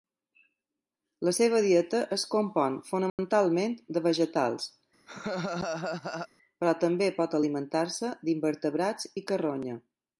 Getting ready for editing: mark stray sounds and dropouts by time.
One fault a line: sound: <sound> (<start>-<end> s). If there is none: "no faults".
sound: dropout (3.1-3.2 s)
sound: laugh (5.1-6.3 s)